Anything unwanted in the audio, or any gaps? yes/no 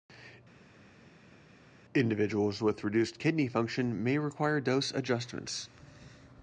no